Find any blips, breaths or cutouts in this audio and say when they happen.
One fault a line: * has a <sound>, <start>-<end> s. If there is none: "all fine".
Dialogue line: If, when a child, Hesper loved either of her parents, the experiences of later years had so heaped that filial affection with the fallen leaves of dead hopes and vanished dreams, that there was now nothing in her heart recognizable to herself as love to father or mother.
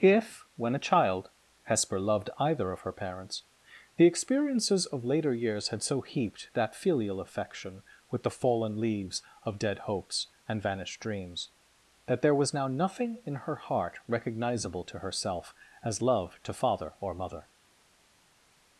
all fine